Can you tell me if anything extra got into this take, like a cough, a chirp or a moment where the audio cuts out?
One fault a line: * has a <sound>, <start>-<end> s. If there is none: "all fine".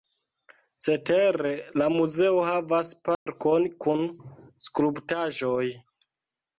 * has a dropout, 3.1-3.3 s